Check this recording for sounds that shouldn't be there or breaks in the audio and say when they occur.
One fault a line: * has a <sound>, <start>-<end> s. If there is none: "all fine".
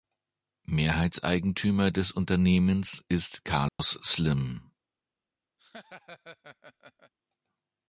* has a dropout, 3.7-3.8 s
* has a laugh, 5.6-7.1 s